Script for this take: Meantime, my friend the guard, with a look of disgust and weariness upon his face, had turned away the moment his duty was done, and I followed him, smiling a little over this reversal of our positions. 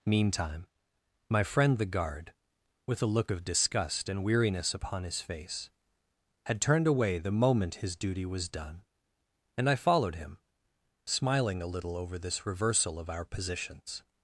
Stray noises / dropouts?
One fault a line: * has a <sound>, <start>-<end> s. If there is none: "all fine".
all fine